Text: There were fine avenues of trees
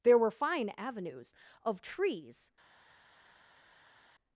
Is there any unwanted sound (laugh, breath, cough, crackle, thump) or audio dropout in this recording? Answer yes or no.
no